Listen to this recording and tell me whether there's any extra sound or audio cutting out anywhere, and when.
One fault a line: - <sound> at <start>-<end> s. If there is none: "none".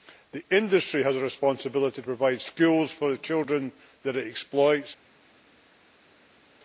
none